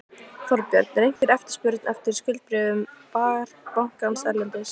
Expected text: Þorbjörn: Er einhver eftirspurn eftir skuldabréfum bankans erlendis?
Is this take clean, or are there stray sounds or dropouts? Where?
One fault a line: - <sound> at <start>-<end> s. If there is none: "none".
- dropout at 1.2-1.2 s